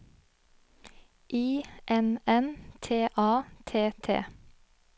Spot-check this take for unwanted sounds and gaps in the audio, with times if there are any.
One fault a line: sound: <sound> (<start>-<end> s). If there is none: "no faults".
no faults